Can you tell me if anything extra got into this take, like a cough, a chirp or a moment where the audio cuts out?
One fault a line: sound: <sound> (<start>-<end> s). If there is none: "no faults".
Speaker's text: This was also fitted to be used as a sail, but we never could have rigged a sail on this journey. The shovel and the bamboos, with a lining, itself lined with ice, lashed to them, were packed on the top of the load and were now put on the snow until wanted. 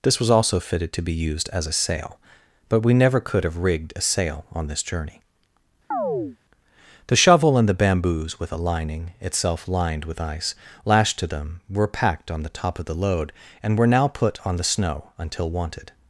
sound: chirp (5.9-6.4 s)